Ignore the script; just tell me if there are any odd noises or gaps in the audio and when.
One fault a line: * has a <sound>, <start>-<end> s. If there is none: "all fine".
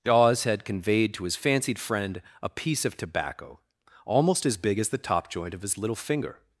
all fine